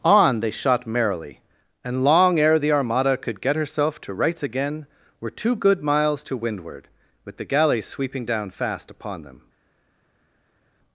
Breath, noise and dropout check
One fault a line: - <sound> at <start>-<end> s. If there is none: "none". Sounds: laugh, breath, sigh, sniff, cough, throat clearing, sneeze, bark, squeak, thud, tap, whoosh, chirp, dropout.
none